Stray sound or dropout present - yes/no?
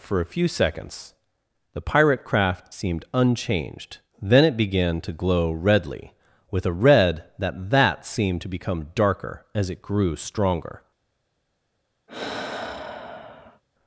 yes